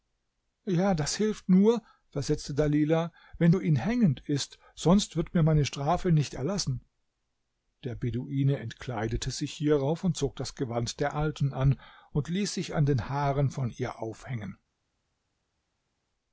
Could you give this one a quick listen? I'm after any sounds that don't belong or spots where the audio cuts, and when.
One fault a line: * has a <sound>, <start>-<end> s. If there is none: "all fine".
all fine